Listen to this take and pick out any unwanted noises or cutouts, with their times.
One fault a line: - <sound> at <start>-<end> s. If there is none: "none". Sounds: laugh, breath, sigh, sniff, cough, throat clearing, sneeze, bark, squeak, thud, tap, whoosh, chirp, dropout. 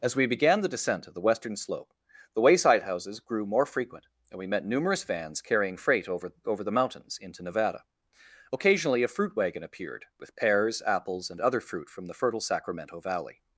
none